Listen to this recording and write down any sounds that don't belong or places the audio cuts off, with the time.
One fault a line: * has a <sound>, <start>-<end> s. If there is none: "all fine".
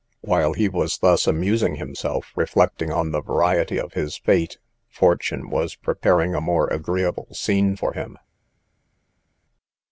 all fine